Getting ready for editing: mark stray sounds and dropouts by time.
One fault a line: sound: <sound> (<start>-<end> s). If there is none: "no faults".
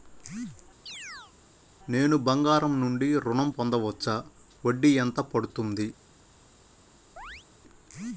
sound: chirp (0.9-1.3 s)
sound: chirp (7.2-7.5 s)